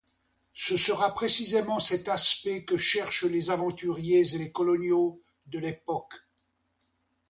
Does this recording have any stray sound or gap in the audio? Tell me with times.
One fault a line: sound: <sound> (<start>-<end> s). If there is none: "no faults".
no faults